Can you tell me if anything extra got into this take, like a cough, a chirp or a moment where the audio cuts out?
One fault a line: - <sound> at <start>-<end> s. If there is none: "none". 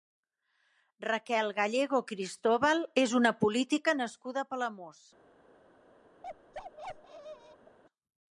- bark at 6.2-7.8 s